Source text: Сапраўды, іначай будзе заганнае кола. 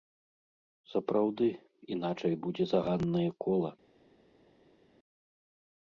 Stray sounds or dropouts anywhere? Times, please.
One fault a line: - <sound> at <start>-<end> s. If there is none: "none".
none